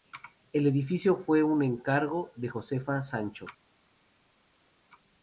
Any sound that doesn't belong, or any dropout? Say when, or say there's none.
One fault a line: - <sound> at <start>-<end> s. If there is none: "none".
none